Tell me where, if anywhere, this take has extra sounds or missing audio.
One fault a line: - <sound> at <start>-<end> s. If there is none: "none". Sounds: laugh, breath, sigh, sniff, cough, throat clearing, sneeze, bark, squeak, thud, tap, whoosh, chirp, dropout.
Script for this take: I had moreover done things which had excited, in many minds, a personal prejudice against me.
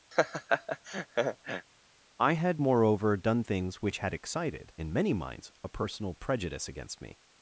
- laugh at 0.1-1.7 s